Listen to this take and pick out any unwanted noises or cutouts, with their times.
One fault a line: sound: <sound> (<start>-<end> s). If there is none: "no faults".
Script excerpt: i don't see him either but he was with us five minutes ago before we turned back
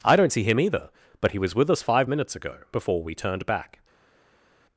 no faults